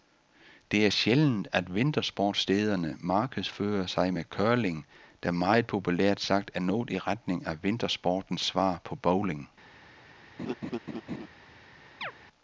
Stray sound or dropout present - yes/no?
yes